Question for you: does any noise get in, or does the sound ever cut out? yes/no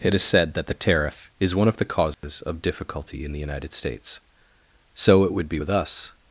yes